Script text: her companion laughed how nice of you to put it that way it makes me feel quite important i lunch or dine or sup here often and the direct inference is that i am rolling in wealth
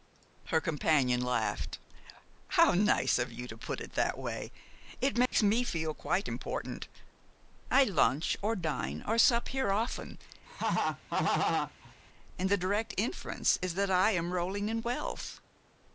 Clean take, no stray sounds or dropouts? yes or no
no